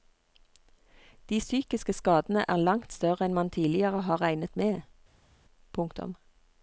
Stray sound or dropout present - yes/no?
no